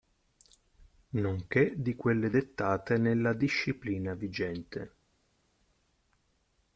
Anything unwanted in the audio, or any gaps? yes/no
no